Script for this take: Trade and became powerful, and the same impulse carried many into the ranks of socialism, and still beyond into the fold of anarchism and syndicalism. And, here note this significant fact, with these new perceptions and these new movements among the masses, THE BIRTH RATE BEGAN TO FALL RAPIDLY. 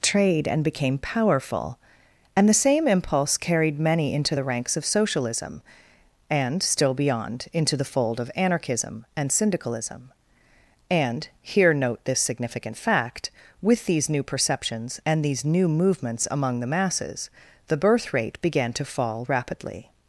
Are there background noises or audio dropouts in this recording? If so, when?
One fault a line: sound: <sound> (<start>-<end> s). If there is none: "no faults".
no faults